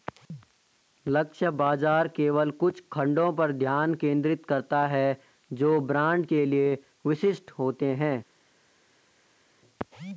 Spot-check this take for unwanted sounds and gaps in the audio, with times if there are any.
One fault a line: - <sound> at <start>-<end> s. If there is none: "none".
none